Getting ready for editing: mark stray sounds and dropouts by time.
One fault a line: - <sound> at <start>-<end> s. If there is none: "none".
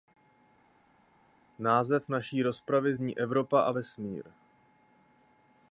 none